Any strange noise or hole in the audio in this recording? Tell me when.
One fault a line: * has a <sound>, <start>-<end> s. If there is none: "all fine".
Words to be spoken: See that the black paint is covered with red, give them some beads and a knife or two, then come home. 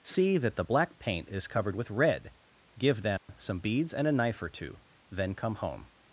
* has a dropout, 3.2-3.3 s